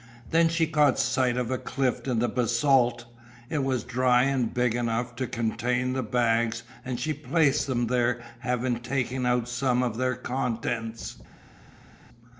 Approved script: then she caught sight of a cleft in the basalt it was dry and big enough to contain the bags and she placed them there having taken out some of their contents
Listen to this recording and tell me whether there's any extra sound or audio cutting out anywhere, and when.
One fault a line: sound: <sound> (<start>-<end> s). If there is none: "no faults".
no faults